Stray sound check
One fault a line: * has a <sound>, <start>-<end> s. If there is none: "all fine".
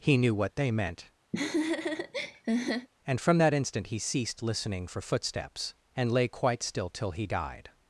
* has a laugh, 1.3-2.9 s